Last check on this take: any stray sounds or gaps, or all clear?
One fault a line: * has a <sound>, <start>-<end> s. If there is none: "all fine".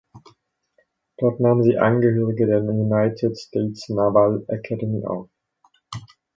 all fine